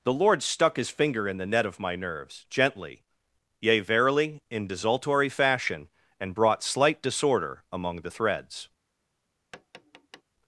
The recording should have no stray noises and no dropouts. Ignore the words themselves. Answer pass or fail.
fail